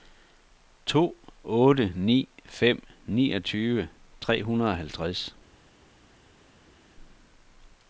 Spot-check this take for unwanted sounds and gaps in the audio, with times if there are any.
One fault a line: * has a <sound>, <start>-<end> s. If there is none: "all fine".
all fine